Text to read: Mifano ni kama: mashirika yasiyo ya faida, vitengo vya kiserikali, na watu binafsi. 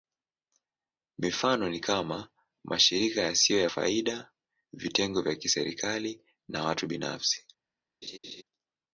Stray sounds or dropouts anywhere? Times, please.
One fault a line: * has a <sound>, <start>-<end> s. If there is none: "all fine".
* has a laugh, 8.0-8.4 s